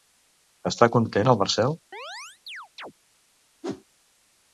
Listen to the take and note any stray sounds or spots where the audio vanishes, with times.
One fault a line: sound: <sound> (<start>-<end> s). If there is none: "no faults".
sound: chirp (1.9-2.9 s)
sound: whoosh (3.6-3.8 s)